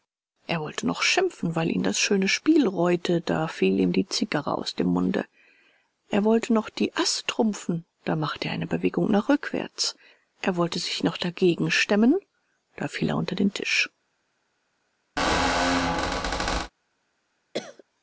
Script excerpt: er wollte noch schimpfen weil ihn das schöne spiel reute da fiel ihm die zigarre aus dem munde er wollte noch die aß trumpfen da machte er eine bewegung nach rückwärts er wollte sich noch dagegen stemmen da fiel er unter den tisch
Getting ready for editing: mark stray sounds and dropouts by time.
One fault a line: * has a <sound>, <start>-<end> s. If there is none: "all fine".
* has a squeak, 15.2-16.7 s
* has a cough, 17.5-17.8 s